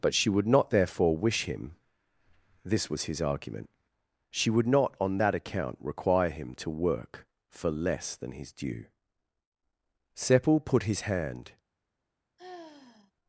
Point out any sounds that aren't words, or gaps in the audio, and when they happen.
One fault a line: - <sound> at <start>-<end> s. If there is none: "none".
- sigh at 12.4-13.1 s